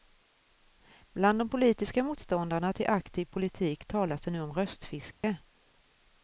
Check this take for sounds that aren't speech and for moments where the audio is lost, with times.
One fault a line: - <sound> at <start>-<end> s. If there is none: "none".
- dropout at 5.1-5.2 s